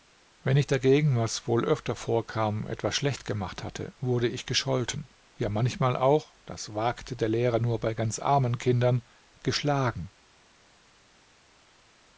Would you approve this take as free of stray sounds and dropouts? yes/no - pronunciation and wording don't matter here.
yes